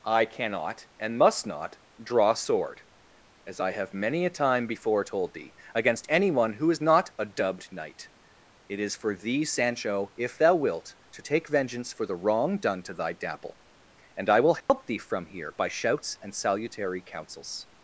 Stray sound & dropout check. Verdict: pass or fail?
fail